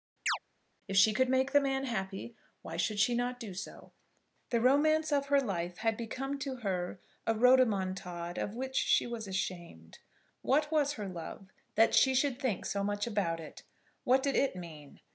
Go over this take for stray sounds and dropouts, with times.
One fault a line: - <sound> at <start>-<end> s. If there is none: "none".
- chirp at 0.3-0.4 s